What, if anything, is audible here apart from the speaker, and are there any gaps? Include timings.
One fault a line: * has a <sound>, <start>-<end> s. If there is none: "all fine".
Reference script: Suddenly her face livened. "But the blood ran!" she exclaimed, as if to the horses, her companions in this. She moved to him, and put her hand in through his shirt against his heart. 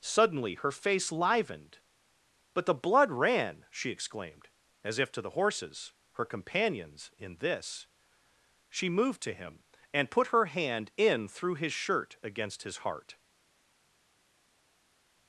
all fine